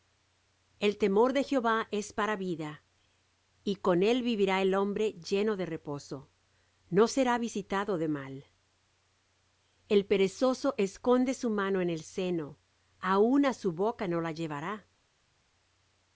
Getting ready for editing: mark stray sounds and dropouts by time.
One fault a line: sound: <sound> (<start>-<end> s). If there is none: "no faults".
no faults